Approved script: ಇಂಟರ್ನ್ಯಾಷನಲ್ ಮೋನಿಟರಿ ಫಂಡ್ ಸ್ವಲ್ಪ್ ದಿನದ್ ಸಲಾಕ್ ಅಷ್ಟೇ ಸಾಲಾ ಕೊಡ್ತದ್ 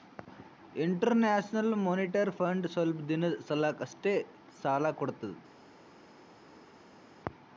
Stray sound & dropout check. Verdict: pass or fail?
pass